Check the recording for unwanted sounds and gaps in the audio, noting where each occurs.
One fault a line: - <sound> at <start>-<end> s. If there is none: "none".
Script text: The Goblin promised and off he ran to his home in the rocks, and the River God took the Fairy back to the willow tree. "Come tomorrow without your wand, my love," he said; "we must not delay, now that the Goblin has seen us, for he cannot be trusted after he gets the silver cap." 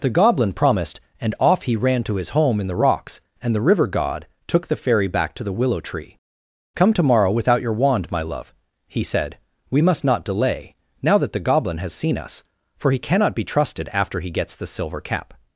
none